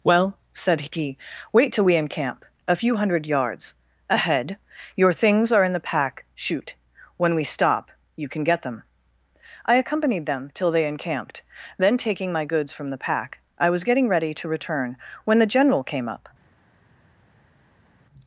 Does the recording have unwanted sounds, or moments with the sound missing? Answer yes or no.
no